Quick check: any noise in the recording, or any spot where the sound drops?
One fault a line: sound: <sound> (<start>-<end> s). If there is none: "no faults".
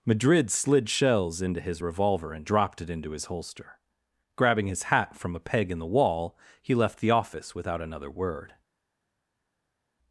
no faults